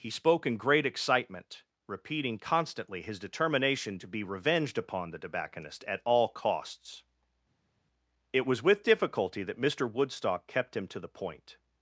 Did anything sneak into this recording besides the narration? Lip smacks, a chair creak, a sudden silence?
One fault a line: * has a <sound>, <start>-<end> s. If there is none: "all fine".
all fine